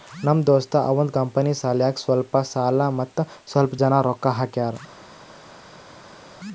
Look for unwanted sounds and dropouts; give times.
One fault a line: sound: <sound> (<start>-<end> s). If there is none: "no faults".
no faults